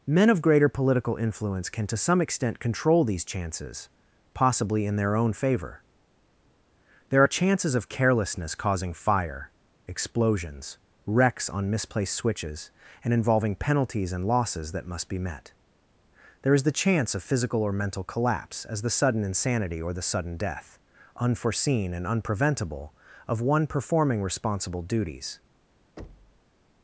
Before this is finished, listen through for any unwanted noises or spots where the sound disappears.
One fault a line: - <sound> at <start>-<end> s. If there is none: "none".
- thud at 26.0-26.5 s